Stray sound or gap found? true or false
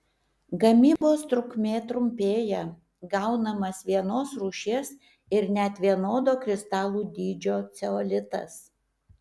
true